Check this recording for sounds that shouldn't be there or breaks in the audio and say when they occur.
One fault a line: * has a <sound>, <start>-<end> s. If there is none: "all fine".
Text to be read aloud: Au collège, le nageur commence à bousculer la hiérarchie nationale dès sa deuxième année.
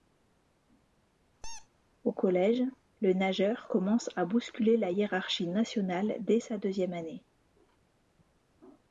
* has a squeak, 1.4-1.7 s